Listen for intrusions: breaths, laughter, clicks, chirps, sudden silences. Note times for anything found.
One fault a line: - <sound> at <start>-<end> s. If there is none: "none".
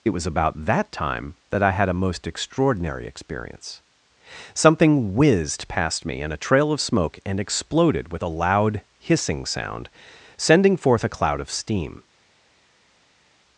none